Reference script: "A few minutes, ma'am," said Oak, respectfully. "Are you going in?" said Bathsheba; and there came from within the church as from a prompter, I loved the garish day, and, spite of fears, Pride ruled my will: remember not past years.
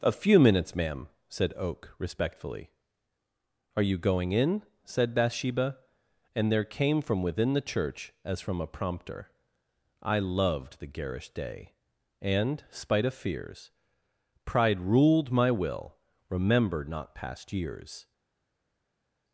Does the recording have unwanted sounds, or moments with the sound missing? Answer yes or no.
no